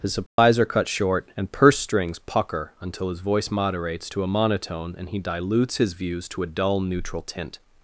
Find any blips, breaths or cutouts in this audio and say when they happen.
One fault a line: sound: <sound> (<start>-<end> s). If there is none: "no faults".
sound: dropout (0.3-0.4 s)